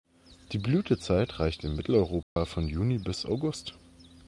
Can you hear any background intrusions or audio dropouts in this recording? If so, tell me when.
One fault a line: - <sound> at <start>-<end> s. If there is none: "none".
- dropout at 2.2-2.4 s